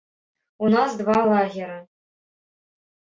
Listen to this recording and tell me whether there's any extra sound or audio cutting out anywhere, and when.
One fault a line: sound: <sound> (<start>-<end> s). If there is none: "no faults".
no faults